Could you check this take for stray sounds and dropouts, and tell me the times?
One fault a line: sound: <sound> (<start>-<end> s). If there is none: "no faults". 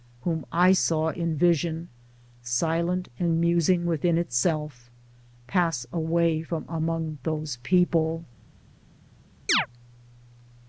sound: chirp (9.5-9.7 s)